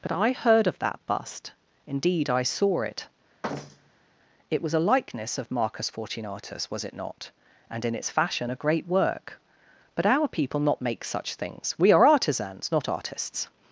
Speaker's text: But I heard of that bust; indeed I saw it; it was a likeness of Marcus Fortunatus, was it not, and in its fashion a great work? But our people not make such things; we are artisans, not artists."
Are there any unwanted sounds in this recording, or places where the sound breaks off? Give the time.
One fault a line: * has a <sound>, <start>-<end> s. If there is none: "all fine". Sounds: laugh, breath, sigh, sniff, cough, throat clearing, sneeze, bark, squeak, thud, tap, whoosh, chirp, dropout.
* has a thud, 3.4-4.1 s